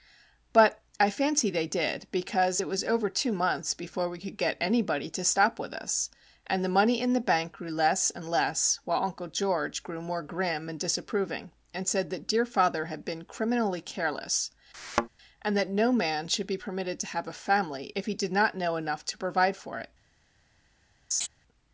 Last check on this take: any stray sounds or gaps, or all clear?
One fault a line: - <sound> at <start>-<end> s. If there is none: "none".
- thud at 14.7-15.1 s
- laugh at 21.1-21.3 s